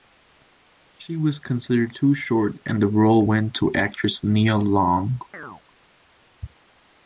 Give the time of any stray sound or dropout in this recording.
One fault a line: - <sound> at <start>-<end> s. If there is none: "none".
- chirp at 5.3-5.6 s